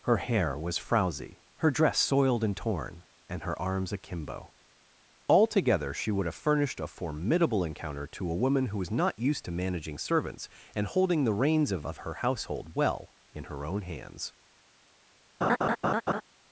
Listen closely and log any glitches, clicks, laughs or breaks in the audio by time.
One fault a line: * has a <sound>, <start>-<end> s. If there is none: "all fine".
* has a laugh, 15.4-16.2 s